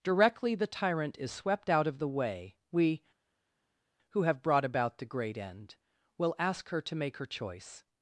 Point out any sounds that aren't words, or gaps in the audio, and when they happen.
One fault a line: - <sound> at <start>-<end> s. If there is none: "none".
none